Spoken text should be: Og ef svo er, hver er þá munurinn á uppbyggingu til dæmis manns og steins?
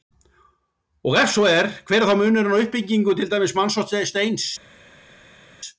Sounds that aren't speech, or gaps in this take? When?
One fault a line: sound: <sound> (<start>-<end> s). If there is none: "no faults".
no faults